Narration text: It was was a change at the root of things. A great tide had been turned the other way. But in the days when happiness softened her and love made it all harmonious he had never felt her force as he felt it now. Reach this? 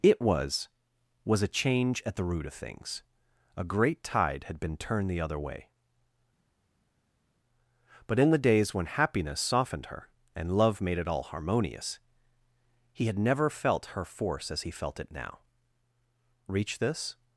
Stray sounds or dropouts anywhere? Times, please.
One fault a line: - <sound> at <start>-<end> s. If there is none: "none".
none